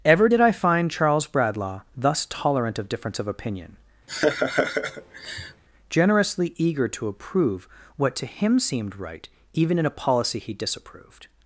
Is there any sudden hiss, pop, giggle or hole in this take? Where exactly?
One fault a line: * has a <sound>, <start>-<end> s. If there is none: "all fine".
* has a laugh, 4.1-5.6 s